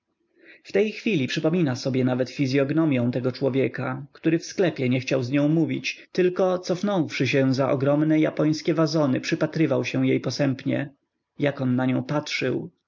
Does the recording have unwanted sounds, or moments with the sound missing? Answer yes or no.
no